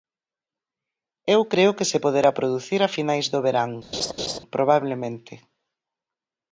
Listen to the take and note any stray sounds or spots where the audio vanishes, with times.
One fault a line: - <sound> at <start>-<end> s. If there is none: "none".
- laugh at 3.9-4.4 s